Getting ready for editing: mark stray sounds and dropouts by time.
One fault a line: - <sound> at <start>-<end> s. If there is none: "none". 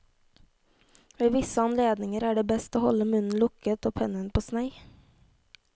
none